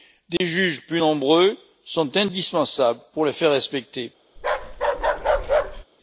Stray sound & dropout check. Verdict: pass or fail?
fail